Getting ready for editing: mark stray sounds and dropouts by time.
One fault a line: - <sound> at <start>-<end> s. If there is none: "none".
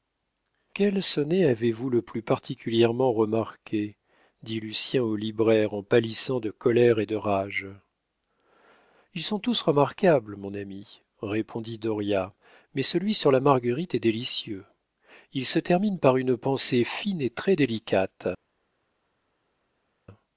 none